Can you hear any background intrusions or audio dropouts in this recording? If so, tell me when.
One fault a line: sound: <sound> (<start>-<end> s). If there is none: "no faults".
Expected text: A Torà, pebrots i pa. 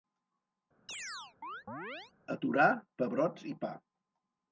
sound: chirp (0.9-2.1 s)